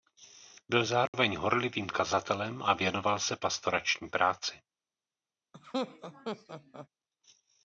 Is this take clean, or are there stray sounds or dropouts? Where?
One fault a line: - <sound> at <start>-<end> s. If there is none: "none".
- dropout at 1.1-1.1 s
- laugh at 5.5-6.9 s